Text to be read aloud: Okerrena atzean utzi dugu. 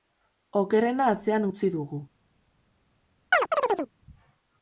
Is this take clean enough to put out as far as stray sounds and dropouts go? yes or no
no